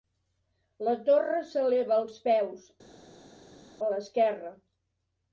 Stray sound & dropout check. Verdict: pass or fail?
pass